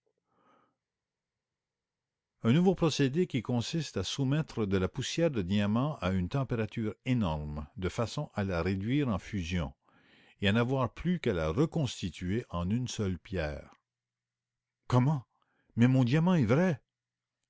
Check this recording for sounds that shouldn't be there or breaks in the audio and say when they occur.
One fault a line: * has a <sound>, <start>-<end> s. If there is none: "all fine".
all fine